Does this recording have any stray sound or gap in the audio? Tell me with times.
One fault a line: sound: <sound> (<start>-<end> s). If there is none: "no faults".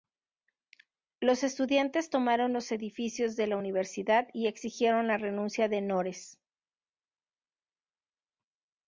no faults